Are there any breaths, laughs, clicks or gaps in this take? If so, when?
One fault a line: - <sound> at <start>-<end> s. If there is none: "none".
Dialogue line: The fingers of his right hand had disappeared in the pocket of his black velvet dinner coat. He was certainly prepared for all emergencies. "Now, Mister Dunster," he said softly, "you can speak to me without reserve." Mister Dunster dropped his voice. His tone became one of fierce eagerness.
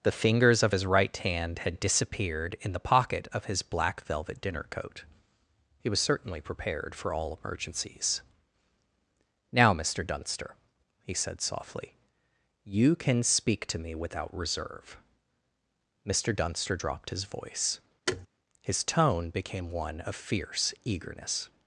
- thud at 18.1-18.3 s